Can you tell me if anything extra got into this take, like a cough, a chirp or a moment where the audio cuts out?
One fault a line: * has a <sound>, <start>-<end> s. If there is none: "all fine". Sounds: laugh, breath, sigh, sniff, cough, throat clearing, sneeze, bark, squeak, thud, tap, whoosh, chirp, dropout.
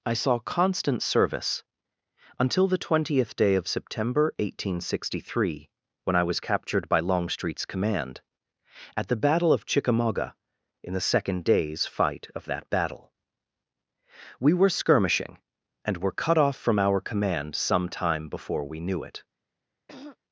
* has a throat clearing, 19.9-20.2 s